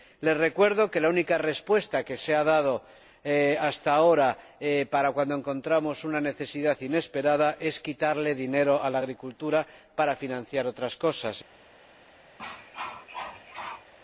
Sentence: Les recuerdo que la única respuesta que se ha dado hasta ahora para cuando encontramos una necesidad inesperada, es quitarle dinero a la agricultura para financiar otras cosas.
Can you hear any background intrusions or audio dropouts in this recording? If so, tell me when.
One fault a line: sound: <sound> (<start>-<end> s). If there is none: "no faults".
sound: cough (12.4-13.9 s)